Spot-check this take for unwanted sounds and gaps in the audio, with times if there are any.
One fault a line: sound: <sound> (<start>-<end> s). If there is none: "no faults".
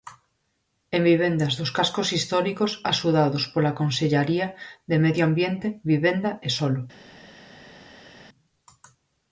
no faults